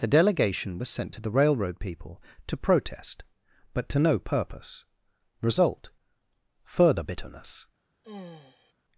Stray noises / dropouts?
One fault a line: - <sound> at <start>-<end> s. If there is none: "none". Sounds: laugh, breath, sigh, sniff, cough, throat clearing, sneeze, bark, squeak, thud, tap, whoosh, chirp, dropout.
- sigh at 8.0-8.7 s